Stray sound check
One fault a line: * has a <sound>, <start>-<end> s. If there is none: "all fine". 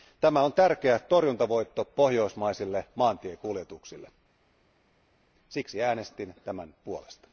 all fine